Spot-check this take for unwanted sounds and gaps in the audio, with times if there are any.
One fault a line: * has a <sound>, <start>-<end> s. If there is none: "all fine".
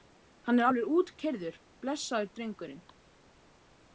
all fine